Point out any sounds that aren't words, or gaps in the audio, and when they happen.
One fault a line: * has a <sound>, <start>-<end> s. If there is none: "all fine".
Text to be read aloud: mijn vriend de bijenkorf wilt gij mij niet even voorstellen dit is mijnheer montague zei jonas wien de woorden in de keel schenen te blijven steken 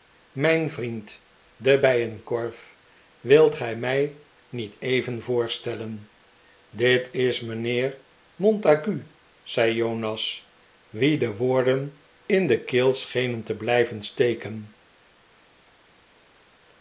all fine